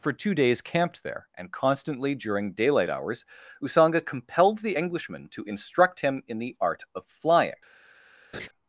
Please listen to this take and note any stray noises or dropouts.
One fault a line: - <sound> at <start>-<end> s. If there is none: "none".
- laugh at 8.3-8.5 s